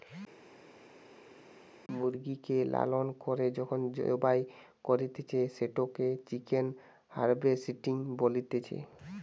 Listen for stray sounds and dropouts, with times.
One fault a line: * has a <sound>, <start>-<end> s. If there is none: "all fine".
all fine